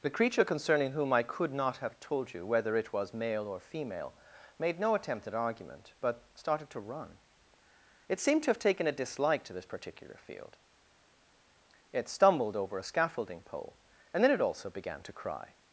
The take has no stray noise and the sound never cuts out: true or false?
true